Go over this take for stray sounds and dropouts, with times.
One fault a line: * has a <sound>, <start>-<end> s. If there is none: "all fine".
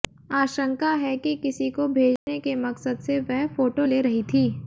* has a dropout, 2.2-2.3 s